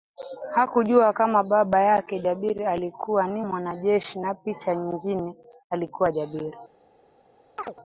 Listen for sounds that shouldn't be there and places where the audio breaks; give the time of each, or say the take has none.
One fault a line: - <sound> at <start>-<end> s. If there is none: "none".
- chirp at 7.6-7.7 s